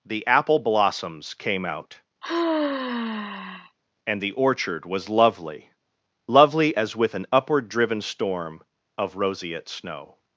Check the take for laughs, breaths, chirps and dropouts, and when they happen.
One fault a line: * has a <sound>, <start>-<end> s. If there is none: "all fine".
* has a sigh, 2.2-3.8 s